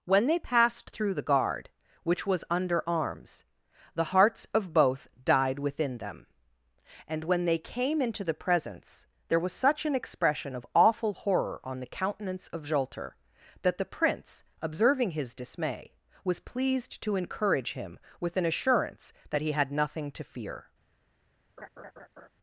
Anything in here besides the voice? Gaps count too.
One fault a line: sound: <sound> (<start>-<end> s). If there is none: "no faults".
sound: laugh (21.6-22.3 s)